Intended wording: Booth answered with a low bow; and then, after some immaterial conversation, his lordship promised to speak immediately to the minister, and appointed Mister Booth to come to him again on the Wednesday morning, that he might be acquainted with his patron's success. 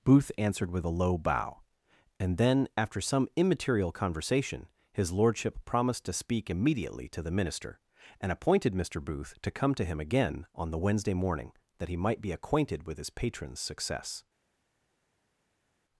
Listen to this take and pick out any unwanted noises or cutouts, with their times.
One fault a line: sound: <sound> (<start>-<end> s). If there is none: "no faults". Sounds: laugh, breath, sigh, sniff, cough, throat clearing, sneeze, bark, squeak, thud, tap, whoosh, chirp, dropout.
no faults